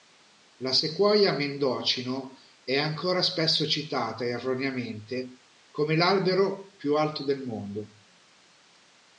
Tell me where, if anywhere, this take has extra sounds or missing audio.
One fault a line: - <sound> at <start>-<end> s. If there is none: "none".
none